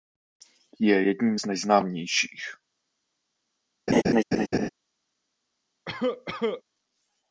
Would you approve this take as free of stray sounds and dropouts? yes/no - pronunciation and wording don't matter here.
no